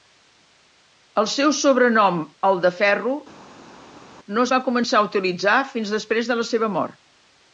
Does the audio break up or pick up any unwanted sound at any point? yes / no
no